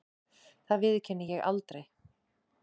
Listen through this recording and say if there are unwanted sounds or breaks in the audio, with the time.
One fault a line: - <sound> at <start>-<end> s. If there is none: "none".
none